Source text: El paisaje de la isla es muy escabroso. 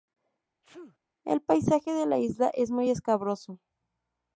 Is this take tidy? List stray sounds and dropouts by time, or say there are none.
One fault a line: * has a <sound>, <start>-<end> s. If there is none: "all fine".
* has a sneeze, 0.6-1.0 s